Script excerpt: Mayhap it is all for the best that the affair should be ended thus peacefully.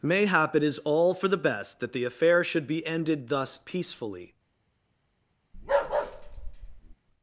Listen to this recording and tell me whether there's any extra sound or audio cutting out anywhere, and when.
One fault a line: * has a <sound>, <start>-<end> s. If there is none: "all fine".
* has a bark, 5.5-7.0 s